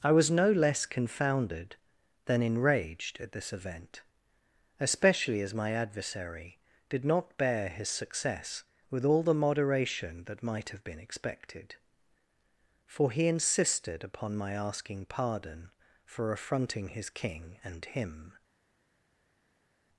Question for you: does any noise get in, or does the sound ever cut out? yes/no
no